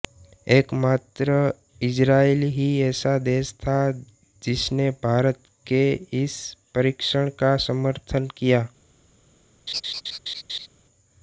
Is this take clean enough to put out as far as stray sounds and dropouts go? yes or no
no